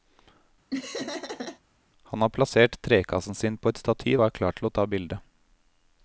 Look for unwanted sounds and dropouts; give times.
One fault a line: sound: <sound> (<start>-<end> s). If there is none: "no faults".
sound: laugh (0.7-1.6 s)